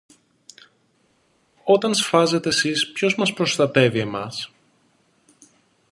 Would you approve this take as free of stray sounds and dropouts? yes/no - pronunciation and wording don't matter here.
yes